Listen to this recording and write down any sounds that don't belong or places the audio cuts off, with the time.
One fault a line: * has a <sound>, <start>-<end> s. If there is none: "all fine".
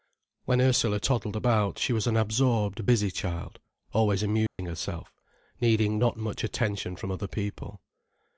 * has a dropout, 4.5-4.6 s